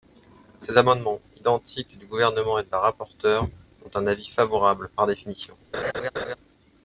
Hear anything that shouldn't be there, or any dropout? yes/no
yes